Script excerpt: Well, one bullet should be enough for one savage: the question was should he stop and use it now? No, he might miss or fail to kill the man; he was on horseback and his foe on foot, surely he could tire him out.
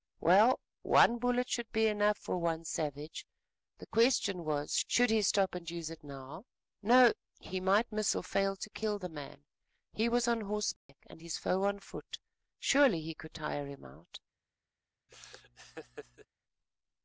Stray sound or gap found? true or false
true